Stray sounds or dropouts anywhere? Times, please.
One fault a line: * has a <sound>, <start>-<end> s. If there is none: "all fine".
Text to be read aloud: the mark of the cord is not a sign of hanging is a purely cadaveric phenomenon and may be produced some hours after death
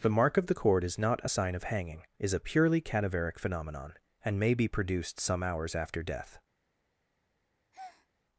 * has a breath, 7.7-8.1 s